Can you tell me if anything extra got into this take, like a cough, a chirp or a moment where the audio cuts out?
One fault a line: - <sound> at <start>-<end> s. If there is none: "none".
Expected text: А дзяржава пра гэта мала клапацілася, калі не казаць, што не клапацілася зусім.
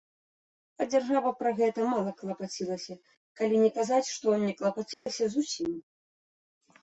- dropout at 4.9-5.1 s